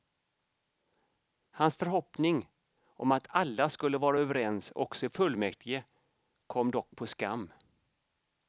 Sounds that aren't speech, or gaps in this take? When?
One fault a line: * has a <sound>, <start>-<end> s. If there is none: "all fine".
all fine